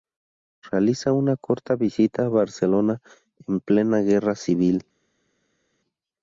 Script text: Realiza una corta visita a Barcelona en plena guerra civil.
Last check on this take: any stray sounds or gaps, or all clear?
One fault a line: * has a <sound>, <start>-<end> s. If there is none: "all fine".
all fine